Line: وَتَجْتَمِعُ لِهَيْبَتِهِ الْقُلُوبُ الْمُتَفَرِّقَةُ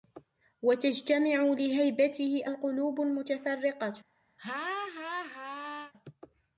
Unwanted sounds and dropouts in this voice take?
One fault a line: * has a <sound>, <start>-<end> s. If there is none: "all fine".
* has a laugh, 4.4-5.9 s